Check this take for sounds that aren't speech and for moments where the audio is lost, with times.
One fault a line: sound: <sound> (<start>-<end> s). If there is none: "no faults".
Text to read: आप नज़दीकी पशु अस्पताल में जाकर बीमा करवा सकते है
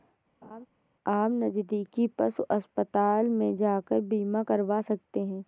sound: laugh (0.4-0.7 s)